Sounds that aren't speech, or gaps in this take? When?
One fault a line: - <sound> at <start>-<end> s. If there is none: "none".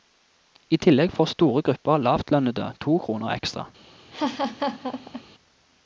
- laugh at 4.1-5.2 s